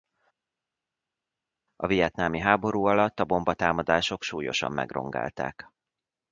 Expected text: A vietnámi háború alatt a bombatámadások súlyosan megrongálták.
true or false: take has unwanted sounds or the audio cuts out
false